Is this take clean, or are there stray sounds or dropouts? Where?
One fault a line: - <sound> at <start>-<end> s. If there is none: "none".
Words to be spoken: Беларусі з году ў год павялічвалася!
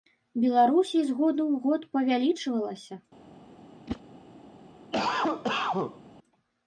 - whoosh at 3.9-4.0 s
- cough at 4.9-6.0 s